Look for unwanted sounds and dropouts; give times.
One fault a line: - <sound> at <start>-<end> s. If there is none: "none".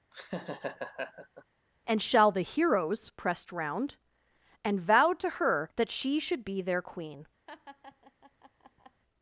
- laugh at 0.1-1.4 s
- laugh at 7.5-9.0 s